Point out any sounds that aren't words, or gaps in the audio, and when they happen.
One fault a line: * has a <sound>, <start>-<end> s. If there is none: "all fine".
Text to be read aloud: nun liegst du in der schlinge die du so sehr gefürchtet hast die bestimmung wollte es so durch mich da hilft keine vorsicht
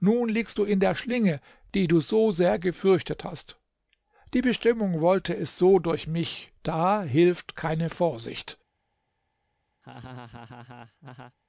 * has a laugh, 9.8-11.4 s